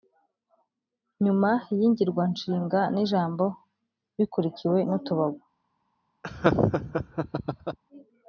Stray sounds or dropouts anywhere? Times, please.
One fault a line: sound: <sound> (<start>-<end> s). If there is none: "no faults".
sound: laugh (6.2-7.8 s)